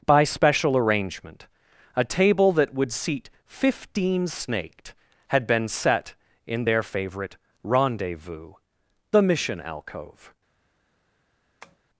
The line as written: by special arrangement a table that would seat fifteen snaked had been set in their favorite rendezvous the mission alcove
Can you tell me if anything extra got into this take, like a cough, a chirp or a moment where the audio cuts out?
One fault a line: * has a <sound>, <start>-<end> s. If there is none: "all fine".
* has a tap, 11.6-11.8 s